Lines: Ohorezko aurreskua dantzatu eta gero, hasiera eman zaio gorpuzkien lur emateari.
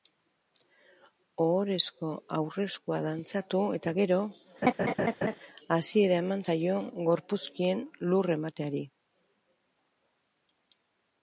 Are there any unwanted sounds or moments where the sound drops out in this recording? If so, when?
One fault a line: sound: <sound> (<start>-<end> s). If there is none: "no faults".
sound: laugh (4.6-5.4 s)